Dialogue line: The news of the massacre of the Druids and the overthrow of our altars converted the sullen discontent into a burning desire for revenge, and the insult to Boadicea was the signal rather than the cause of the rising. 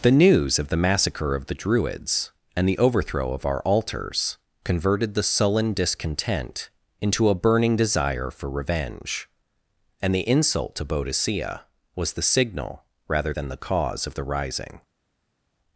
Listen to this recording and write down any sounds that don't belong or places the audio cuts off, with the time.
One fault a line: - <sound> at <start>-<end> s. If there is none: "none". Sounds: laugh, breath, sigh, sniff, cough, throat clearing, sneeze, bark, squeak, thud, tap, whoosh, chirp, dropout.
none